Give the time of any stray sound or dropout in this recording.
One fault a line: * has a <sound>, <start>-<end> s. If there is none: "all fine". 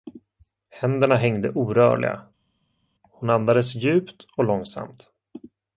all fine